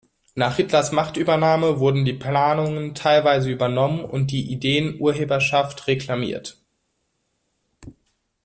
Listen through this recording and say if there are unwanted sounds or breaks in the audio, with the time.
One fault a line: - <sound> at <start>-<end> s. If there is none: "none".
none